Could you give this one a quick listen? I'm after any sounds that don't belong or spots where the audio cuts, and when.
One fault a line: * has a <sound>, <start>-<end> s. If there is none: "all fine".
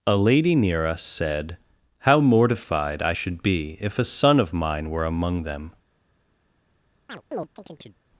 * has a chirp, 7.1-8.0 s